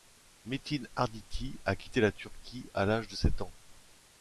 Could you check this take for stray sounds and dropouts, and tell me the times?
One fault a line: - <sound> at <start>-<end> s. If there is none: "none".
none